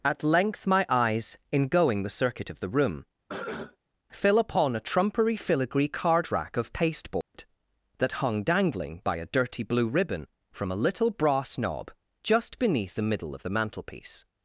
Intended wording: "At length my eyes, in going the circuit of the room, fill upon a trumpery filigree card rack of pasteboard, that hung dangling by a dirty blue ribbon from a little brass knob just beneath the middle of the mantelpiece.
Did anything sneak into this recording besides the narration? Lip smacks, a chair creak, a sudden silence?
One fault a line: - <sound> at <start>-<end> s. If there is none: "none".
- cough at 3.3-3.8 s
- dropout at 7.2-7.3 s